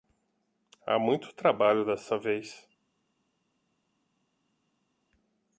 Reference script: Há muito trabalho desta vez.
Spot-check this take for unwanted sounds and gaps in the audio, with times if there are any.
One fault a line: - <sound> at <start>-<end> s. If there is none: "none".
none